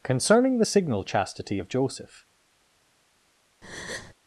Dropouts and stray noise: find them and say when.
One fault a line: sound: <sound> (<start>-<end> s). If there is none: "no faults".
sound: breath (3.6-4.1 s)